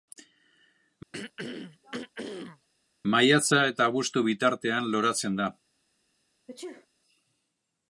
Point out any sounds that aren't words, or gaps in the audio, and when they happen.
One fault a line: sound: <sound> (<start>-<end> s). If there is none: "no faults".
sound: throat clearing (1.1-2.7 s)
sound: sneeze (6.5-6.9 s)